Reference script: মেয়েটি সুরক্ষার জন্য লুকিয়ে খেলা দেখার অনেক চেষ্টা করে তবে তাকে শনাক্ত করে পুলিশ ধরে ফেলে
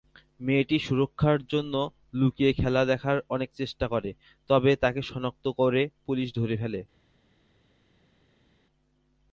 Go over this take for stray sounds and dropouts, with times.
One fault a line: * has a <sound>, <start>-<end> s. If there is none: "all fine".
all fine